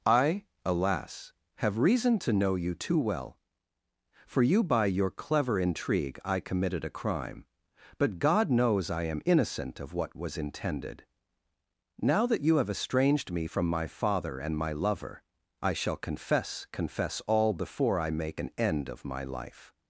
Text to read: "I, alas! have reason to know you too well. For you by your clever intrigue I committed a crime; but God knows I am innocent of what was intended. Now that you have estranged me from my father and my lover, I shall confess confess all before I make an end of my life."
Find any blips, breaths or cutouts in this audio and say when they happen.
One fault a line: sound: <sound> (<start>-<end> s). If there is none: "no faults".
no faults